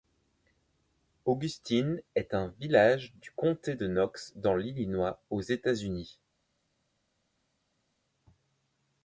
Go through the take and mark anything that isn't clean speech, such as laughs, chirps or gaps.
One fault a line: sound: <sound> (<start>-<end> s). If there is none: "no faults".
no faults